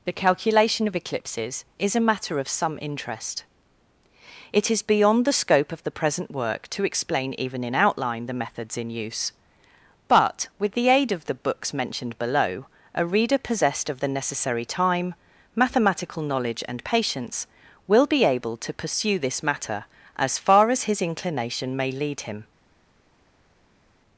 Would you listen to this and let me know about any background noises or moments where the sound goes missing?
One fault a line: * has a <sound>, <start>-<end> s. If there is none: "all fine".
all fine